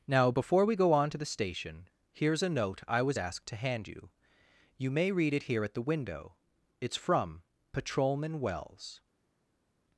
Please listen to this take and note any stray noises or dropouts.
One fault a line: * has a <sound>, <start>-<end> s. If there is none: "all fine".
all fine